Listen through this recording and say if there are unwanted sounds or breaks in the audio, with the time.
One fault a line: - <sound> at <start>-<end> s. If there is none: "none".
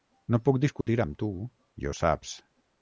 - dropout at 0.8-0.9 s